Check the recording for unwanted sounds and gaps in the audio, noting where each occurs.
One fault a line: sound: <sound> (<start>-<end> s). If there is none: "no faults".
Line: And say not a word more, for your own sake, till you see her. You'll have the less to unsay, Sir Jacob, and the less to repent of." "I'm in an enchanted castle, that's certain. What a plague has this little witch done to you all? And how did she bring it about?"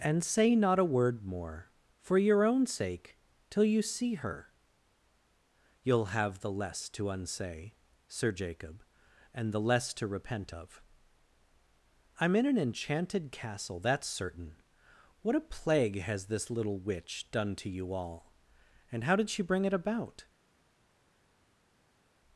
no faults